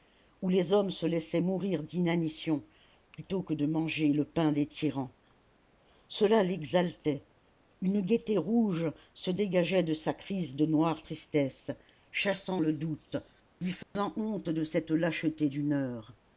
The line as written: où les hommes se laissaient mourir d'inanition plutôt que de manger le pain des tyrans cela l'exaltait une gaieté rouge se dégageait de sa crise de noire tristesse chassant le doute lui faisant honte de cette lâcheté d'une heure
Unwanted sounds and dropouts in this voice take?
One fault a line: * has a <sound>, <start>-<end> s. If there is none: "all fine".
* has a dropout, 13.8-14.0 s